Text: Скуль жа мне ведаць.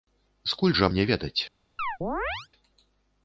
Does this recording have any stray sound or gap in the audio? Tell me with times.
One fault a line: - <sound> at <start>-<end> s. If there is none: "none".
- chirp at 1.8-2.5 s